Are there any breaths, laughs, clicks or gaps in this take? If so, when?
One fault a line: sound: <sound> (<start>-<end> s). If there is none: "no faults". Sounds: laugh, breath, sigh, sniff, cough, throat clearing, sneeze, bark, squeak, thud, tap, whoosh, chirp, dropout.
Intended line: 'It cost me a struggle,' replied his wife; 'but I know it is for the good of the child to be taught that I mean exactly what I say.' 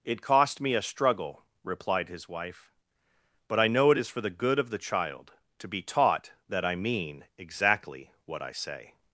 no faults